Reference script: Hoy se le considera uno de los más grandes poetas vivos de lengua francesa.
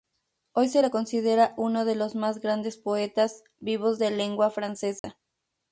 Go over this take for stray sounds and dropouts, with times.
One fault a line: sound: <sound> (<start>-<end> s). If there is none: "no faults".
sound: dropout (5.0-5.0 s)